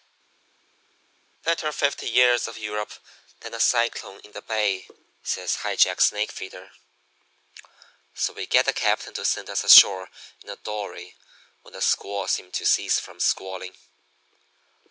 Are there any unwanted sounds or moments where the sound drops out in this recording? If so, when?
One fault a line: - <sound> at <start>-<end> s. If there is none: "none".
none